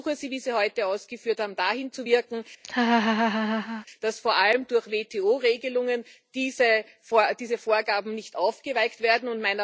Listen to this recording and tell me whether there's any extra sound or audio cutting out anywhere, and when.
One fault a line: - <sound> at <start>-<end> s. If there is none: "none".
- laugh at 2.6-3.9 s